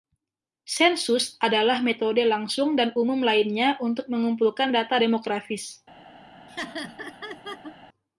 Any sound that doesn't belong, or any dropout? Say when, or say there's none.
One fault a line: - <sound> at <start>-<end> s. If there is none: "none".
- laugh at 6.5-7.8 s